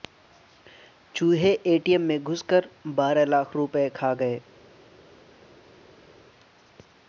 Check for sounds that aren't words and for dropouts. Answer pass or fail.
pass